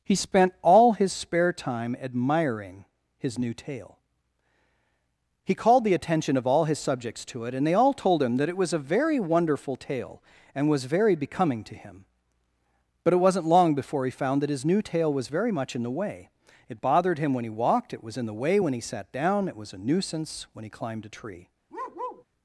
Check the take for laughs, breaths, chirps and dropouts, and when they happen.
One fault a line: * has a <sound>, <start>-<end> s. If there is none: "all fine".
* has a bark, 21.7-22.2 s